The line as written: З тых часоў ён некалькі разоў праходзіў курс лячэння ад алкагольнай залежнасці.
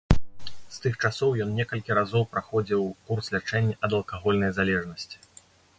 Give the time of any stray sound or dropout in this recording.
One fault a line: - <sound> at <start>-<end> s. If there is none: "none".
none